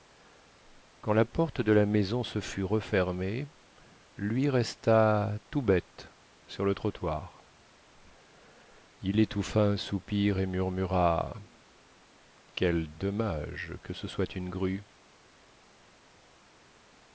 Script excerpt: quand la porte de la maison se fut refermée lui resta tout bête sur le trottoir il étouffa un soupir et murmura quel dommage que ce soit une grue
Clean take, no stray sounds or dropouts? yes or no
yes